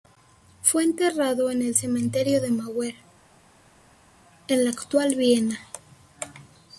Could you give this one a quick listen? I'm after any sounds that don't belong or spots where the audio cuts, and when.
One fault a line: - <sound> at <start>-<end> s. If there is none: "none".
none